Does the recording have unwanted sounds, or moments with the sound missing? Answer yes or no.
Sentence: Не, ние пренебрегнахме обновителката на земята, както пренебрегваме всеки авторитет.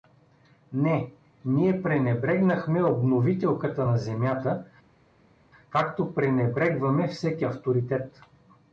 no